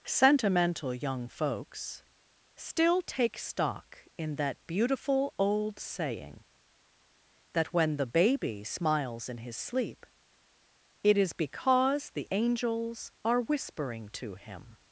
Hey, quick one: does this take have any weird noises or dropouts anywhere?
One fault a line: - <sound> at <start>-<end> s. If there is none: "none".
none